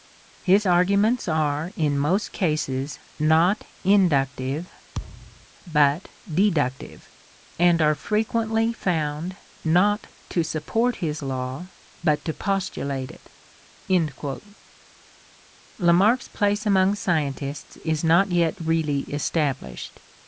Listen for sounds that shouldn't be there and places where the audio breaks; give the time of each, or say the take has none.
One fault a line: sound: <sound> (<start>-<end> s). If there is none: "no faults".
sound: thud (4.9-5.5 s)